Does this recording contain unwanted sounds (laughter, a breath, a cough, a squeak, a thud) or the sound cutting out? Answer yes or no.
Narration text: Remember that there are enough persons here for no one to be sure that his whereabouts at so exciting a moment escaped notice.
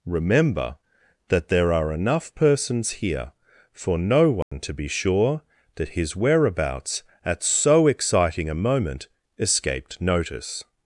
yes